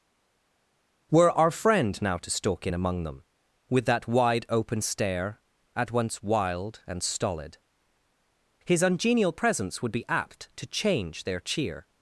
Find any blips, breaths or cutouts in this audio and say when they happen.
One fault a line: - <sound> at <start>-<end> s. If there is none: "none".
none